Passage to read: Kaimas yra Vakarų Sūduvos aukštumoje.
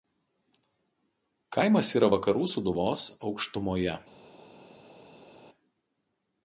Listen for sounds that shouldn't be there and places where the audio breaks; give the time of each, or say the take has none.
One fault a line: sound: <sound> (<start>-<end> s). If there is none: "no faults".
no faults